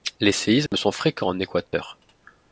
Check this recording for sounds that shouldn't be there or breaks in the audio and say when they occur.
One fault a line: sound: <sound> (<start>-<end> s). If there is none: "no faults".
sound: dropout (0.7-0.7 s)
sound: dropout (1.7-1.7 s)